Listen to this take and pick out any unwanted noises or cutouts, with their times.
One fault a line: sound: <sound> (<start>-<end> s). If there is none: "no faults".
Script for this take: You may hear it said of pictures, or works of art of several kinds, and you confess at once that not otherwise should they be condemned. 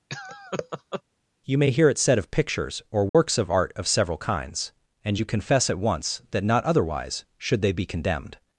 sound: laugh (0.1-1.0 s)
sound: dropout (3.1-3.1 s)